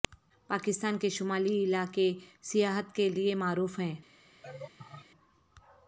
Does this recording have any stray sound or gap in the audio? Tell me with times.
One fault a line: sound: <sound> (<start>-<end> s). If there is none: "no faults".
sound: laugh (4.4-5.1 s)